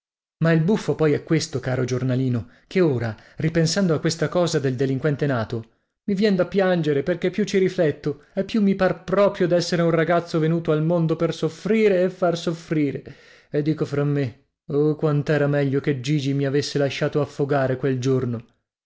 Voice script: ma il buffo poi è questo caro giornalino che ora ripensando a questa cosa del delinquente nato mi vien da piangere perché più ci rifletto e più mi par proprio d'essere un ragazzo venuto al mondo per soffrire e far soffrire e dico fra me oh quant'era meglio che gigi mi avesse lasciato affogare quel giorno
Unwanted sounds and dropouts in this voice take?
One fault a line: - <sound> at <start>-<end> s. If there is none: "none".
none